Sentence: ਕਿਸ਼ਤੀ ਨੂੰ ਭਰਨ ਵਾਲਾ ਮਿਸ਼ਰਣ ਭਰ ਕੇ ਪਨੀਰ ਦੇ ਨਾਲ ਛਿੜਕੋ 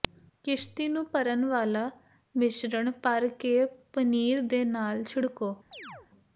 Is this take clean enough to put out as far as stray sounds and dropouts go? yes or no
no